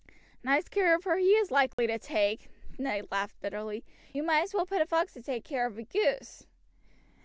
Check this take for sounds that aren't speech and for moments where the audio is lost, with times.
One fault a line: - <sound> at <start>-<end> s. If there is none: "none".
- dropout at 1.7-1.8 s